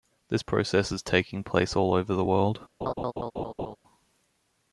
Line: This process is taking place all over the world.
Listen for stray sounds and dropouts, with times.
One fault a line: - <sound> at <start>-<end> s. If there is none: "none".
- laugh at 2.8-3.8 s